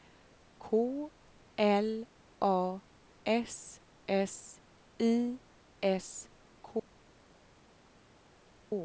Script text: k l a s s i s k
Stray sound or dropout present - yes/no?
no